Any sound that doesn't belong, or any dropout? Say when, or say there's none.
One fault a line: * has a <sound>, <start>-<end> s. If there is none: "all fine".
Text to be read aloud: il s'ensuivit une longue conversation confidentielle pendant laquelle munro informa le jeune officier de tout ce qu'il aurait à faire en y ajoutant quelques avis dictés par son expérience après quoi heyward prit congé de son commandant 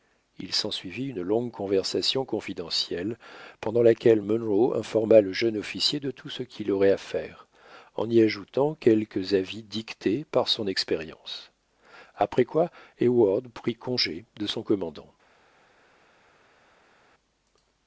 all fine